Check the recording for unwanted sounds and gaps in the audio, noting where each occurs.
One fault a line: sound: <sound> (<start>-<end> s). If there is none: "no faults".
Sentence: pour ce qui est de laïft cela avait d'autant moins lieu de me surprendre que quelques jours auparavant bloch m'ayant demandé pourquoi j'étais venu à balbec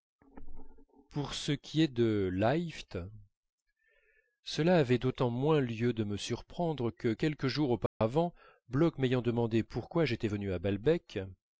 sound: dropout (7.9-8.0 s)